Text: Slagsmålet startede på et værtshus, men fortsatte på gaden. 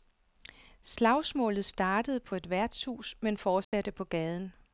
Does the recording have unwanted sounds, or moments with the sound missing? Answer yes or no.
yes